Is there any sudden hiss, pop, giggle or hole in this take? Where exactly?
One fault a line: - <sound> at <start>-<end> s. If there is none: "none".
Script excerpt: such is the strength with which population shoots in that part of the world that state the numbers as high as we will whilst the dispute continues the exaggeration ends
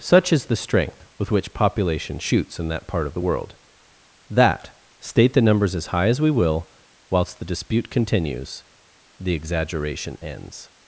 none